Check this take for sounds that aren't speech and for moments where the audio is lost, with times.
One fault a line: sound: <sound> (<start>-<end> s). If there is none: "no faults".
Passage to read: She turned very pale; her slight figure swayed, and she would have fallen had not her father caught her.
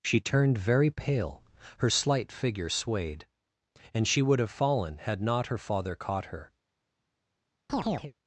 sound: chirp (7.7-8.1 s)